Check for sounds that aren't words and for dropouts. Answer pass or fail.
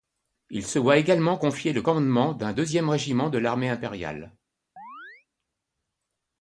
fail